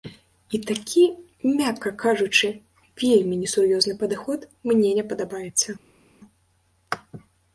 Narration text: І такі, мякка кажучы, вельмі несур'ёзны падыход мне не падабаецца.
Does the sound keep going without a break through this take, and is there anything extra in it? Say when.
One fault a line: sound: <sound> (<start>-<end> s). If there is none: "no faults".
no faults